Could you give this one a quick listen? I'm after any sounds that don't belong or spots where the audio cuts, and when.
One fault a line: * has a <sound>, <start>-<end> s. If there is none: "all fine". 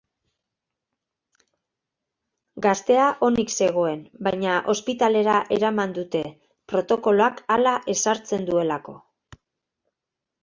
all fine